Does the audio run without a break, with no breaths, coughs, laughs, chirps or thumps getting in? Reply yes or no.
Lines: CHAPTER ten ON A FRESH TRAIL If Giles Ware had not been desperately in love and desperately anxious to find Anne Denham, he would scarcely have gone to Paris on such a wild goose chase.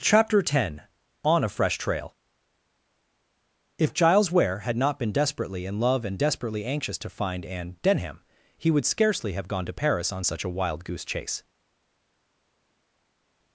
yes